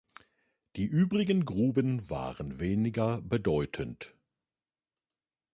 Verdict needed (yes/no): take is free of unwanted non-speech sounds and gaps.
yes